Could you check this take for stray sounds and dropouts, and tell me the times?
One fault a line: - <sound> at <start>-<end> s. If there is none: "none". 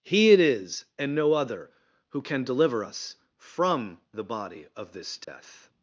- dropout at 5.2-5.3 s